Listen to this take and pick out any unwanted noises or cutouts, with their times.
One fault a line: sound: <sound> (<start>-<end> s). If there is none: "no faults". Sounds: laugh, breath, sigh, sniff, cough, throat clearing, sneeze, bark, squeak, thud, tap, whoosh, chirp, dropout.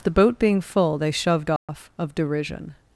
sound: dropout (1.6-1.7 s)